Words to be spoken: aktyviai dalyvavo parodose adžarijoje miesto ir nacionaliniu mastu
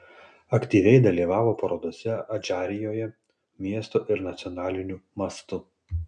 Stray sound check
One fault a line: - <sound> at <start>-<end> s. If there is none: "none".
none